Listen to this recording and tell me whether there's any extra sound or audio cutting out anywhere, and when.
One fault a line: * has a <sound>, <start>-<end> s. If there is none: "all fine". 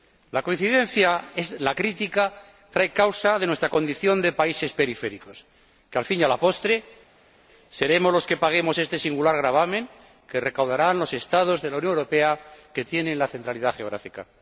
all fine